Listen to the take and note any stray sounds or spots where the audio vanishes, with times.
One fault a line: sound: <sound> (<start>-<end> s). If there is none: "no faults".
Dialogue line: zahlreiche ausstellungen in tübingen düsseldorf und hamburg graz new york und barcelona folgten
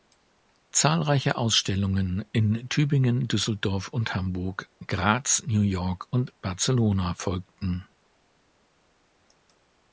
no faults